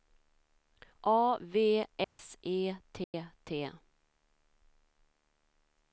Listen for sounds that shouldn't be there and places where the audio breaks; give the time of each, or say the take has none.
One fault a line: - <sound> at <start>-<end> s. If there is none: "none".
- dropout at 2.0-2.2 s
- dropout at 3.0-3.1 s